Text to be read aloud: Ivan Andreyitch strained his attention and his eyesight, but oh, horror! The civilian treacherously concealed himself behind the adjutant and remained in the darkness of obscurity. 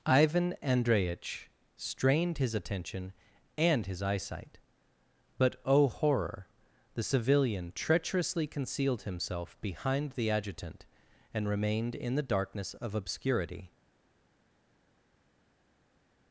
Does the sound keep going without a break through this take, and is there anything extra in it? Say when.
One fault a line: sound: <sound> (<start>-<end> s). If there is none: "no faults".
no faults